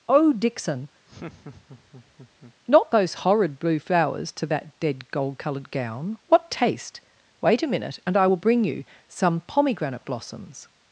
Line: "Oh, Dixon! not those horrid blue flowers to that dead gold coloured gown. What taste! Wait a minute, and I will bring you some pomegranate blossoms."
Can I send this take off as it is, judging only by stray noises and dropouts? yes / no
no